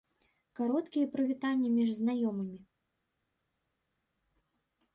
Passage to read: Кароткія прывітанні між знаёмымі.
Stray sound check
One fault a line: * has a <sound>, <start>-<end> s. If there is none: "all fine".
all fine